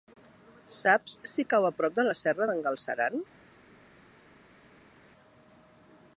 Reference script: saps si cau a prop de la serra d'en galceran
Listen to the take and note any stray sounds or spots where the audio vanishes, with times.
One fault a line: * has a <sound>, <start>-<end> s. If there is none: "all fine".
all fine